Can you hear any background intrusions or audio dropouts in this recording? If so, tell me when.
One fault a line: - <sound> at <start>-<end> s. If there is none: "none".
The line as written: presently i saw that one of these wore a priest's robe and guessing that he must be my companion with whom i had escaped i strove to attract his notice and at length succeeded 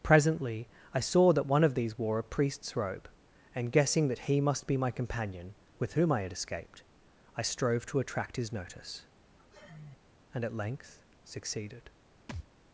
- sigh at 9.4-10.0 s
- thud at 12.3-12.5 s